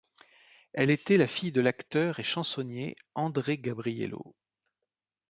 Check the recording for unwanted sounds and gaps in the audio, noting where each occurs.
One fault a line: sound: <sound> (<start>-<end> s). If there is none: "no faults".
no faults